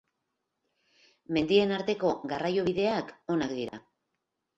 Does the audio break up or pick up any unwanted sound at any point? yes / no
yes